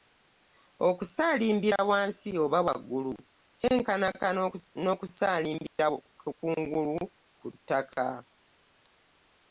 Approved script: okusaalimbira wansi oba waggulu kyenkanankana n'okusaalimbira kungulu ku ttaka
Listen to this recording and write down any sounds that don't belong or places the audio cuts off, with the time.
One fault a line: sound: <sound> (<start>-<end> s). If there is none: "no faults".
sound: dropout (5.7-5.8 s)